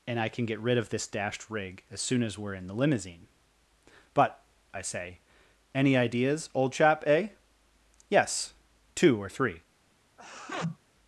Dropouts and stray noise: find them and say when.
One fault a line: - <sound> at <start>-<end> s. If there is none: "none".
- sneeze at 10.2-10.8 s